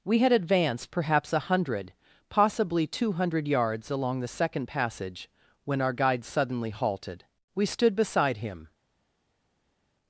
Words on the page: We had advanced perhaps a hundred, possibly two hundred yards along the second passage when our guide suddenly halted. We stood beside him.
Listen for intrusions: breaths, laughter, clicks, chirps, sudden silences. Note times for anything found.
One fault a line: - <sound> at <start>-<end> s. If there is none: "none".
none